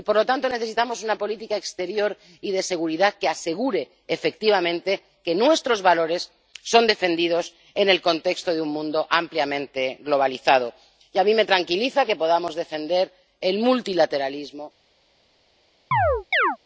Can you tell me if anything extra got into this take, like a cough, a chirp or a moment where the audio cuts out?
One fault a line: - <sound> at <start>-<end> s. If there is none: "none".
- chirp at 15.9-16.6 s